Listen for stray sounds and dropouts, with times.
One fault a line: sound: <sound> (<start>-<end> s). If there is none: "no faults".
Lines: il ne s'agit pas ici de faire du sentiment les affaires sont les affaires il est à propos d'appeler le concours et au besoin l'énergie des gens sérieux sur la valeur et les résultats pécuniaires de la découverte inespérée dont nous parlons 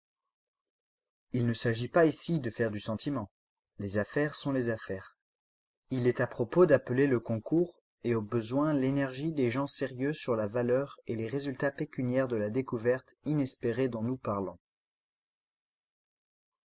no faults